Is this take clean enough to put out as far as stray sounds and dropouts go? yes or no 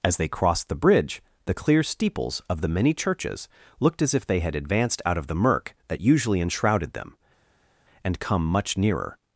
yes